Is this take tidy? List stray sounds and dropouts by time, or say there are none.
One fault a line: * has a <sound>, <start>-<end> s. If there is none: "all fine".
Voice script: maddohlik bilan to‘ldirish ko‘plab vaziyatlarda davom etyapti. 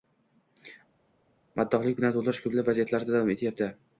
all fine